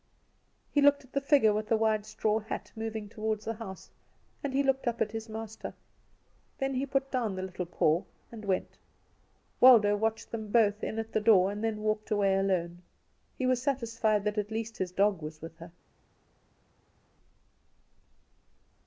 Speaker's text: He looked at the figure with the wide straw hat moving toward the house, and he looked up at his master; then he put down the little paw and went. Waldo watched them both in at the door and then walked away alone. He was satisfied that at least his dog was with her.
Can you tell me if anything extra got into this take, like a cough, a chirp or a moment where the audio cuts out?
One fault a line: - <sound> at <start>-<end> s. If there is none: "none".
none